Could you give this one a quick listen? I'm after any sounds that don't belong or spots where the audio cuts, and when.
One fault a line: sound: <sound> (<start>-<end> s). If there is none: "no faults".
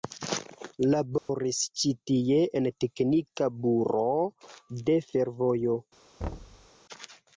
sound: dropout (1.2-1.3 s)
sound: thud (6.2-6.7 s)